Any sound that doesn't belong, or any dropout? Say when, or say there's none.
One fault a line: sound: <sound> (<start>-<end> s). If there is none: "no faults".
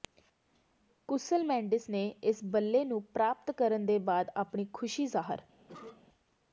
sound: cough (5.7-6.0 s)